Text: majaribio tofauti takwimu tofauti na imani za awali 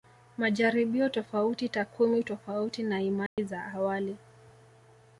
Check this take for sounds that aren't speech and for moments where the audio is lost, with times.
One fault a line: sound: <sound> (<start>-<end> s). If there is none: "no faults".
sound: dropout (3.3-3.4 s)